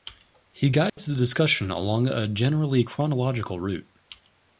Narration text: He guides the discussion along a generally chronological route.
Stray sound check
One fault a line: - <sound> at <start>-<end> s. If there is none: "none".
- dropout at 0.9-1.0 s